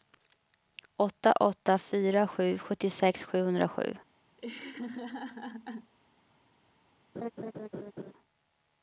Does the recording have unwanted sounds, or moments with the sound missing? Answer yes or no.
yes